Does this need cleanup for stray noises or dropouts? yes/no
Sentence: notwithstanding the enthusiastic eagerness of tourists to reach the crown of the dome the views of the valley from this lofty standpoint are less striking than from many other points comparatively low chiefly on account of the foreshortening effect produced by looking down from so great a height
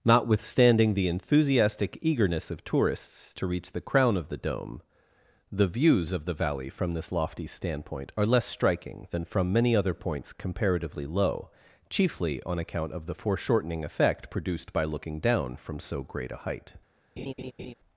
yes